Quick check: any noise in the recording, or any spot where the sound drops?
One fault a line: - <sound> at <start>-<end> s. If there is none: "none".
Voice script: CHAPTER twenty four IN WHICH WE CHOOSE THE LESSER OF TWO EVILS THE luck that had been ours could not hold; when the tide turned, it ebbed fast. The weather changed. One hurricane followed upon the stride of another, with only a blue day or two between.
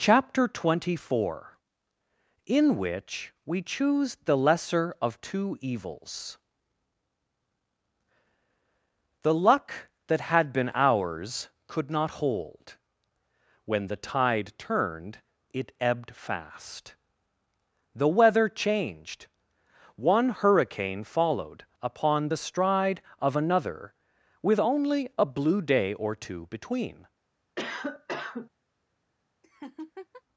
- cough at 27.6-28.5 s
- laugh at 29.4-30.2 s